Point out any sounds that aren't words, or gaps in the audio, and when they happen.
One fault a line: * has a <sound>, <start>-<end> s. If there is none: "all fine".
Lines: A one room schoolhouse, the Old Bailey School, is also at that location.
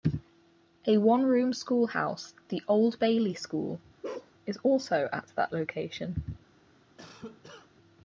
* has a bark, 4.0-4.3 s
* has a cough, 7.0-7.7 s